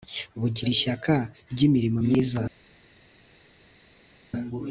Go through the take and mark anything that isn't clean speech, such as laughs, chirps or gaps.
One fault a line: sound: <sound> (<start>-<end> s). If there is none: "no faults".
no faults